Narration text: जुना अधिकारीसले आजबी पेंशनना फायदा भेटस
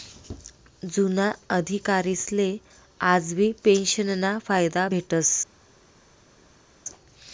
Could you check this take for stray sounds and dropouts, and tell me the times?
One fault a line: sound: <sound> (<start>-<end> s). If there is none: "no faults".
no faults